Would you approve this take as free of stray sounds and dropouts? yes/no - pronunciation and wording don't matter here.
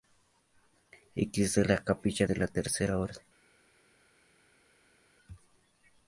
yes